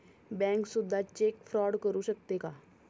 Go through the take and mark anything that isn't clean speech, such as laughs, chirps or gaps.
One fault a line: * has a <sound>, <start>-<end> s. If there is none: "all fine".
all fine